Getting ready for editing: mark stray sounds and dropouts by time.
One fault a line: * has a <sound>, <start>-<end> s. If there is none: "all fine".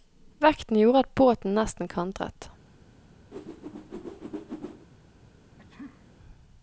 * has a whoosh, 3.3-4.9 s
* has a sneeze, 5.6-6.1 s